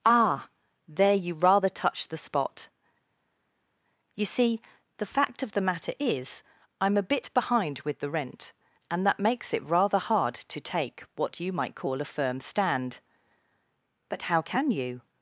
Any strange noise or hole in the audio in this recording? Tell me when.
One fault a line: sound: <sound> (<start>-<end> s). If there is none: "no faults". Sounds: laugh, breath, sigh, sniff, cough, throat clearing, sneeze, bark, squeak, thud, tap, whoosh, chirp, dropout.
no faults